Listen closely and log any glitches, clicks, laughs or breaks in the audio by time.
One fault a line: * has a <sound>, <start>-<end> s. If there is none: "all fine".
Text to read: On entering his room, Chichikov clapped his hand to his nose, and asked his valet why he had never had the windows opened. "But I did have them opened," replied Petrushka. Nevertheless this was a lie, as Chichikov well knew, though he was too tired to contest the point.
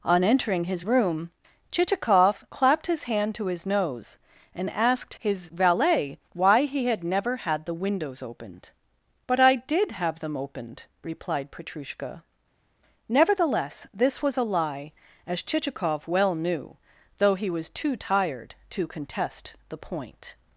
all fine